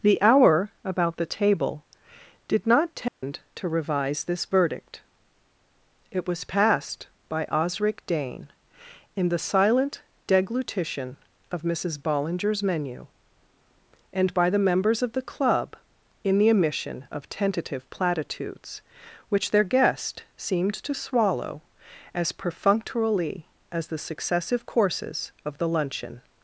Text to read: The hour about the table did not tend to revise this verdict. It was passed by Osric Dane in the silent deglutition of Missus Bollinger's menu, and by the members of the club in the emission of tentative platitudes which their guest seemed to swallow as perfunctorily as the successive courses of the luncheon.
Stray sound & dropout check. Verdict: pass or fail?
fail